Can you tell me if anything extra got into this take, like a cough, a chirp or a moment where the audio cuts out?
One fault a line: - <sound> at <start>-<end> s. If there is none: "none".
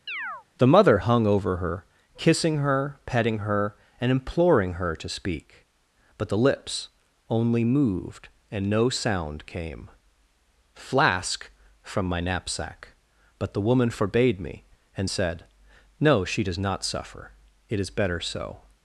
- chirp at 0.1-0.5 s